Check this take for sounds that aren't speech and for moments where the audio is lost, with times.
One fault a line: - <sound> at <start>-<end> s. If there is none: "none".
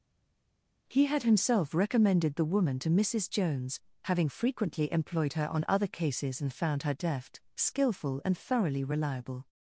none